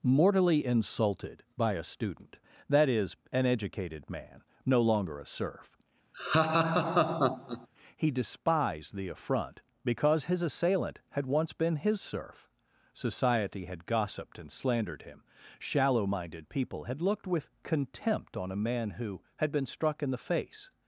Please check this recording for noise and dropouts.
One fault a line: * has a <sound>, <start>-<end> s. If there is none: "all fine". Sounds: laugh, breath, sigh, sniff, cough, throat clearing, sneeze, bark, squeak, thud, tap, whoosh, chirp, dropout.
* has a laugh, 6.1-7.7 s